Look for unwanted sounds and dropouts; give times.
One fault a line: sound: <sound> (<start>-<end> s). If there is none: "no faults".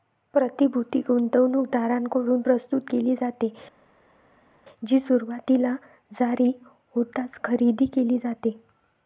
no faults